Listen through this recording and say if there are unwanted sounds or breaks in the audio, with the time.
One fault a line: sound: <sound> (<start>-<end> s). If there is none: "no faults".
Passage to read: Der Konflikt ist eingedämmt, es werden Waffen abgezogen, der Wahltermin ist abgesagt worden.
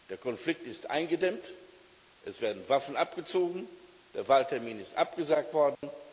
sound: dropout (5.8-5.8 s)